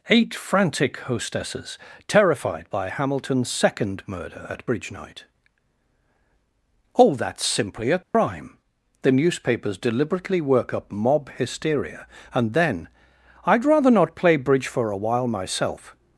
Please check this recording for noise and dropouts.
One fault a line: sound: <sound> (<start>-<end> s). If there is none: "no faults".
sound: dropout (8.0-8.1 s)